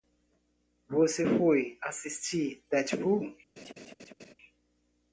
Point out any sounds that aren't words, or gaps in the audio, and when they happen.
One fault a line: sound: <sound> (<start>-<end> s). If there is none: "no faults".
sound: laugh (3.6-4.3 s)